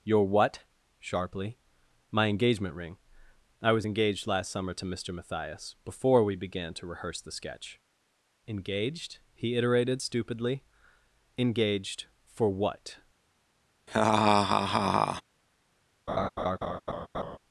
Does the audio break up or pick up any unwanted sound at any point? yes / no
yes